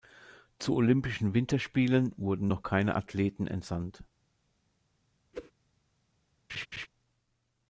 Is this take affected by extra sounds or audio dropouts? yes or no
yes